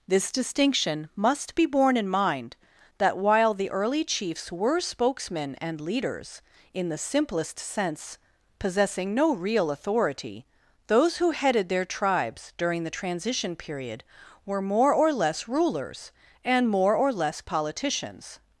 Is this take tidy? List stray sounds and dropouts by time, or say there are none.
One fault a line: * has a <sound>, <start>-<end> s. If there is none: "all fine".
all fine